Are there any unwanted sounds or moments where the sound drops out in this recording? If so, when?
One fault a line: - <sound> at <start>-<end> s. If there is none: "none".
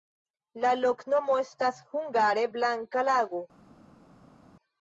none